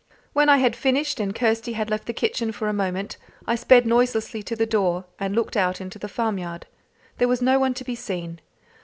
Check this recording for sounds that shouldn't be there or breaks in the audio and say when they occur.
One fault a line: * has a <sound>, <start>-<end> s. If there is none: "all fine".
all fine